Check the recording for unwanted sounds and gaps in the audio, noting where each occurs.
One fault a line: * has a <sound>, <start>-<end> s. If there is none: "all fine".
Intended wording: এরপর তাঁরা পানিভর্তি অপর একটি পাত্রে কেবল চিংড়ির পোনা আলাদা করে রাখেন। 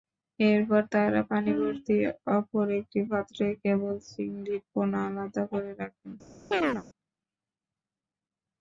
* has a chirp, 6.5-6.8 s